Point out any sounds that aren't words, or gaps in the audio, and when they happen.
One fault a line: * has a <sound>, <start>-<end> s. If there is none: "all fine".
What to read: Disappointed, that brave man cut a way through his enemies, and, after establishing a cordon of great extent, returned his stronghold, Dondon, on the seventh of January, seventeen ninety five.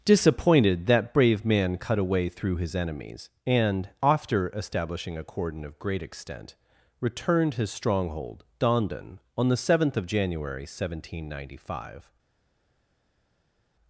all fine